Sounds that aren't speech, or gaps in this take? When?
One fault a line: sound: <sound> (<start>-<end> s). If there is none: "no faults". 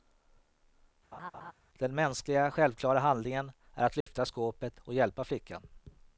sound: laugh (1.1-1.5 s)
sound: dropout (4.0-4.1 s)